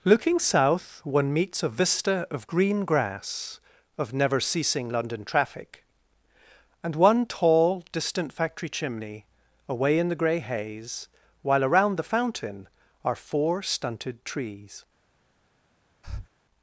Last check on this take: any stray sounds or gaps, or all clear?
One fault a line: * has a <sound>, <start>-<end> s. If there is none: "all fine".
* has a breath, 16.0-16.3 s